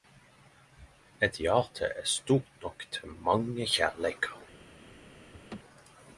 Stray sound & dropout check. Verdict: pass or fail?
fail